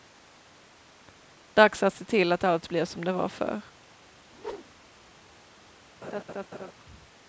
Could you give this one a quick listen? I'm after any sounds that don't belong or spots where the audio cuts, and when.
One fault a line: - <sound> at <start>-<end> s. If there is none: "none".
- whoosh at 4.3-5.0 s
- laugh at 6.0-6.7 s